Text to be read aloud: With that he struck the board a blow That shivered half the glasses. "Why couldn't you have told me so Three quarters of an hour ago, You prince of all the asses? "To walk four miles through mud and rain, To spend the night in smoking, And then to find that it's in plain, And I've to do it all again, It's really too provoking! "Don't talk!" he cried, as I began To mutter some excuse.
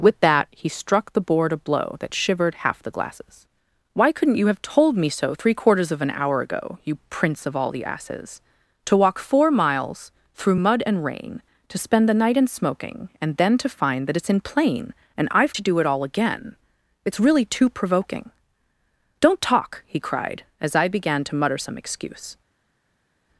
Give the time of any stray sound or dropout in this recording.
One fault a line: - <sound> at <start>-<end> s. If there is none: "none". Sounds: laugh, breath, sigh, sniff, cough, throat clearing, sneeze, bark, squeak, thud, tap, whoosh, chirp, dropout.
none